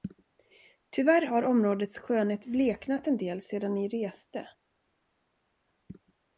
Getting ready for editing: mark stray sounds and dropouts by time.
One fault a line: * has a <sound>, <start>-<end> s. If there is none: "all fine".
all fine